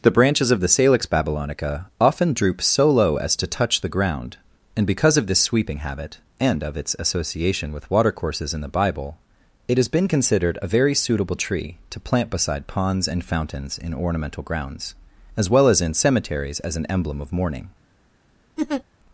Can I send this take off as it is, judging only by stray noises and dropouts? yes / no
no